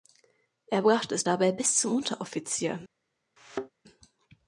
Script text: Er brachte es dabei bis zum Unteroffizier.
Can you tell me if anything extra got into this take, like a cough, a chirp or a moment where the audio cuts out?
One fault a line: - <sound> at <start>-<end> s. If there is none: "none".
- thud at 3.4-3.7 s